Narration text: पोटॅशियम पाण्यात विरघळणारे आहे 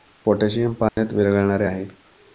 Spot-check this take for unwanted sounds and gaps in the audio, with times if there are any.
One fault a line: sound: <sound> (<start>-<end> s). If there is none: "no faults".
sound: dropout (0.9-1.0 s)